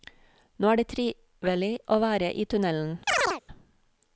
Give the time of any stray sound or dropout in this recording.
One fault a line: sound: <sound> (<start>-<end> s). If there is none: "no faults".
sound: chirp (3.1-3.4 s)